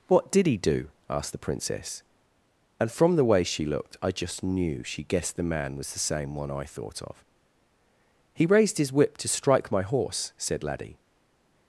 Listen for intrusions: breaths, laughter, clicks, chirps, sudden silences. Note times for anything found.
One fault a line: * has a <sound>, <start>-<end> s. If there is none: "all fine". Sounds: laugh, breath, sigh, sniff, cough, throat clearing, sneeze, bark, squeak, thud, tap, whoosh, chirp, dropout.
all fine